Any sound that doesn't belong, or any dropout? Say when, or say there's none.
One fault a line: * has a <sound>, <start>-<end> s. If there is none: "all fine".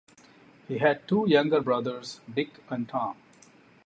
all fine